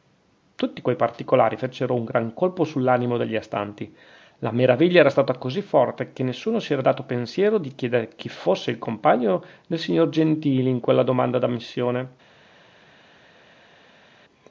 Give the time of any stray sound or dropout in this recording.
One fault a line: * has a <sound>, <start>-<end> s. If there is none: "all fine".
all fine